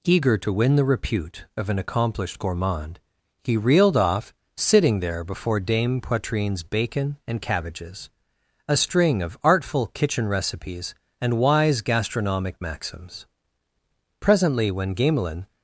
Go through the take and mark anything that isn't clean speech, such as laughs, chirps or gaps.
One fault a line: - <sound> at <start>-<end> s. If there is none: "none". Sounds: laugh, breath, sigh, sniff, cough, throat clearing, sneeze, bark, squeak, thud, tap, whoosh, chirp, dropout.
none